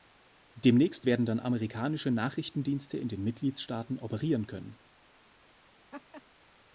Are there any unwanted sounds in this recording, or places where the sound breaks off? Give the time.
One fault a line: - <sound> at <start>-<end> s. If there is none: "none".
- laugh at 5.9-6.2 s